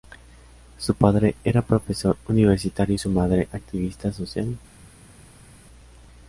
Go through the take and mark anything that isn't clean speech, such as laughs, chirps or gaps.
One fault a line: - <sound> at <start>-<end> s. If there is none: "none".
none